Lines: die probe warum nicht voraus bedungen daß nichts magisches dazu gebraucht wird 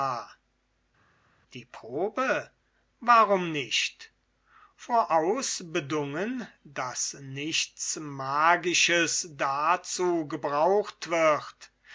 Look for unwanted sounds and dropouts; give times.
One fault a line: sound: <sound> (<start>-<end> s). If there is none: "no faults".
no faults